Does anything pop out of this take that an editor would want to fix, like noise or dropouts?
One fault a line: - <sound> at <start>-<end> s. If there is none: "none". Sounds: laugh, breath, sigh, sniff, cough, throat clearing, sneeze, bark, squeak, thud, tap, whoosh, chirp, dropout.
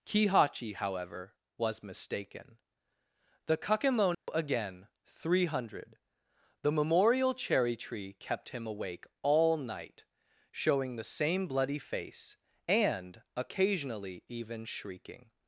- dropout at 4.1-4.3 s